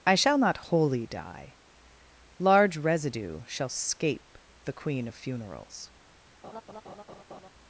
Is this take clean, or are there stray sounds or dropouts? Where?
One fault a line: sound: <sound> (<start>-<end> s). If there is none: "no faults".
sound: laugh (6.4-7.5 s)